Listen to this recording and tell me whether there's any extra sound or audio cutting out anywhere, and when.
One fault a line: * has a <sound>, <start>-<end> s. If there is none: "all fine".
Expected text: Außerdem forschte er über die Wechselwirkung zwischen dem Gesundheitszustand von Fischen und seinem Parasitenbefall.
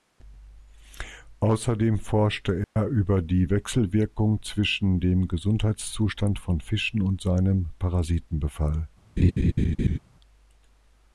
* has a dropout, 2.6-2.8 s
* has a laugh, 9.2-10.0 s